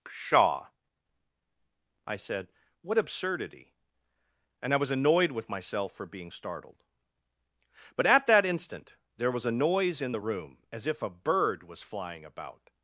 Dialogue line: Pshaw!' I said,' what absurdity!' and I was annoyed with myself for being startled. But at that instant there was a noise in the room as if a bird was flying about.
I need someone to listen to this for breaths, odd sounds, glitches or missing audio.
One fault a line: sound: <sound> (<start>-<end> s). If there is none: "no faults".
no faults